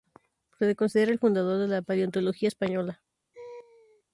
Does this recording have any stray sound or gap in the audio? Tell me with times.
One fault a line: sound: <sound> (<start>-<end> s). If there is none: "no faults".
sound: laugh (3.3-4.0 s)